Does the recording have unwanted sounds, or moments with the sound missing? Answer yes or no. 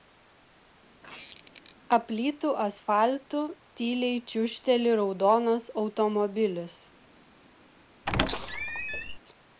yes